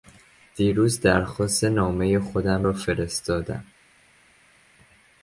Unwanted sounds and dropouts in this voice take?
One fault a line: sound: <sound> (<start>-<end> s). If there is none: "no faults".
no faults